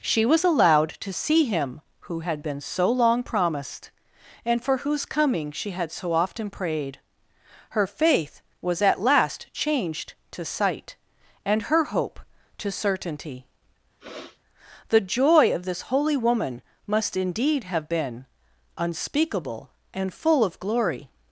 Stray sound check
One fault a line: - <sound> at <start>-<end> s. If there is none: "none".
- sniff at 14.0-14.4 s